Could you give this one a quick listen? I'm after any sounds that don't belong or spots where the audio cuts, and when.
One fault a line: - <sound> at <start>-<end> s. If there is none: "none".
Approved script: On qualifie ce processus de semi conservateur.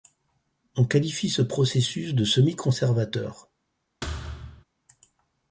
- thud at 4.0-4.6 s